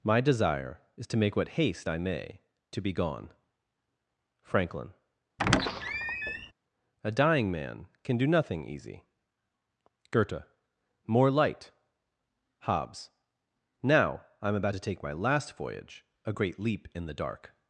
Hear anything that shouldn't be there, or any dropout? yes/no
yes